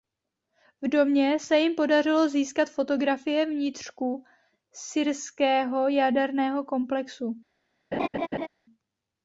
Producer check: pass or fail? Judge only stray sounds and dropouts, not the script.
fail